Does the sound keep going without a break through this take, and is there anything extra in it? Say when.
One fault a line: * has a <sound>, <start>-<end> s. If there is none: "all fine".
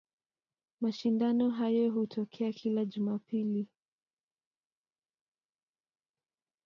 all fine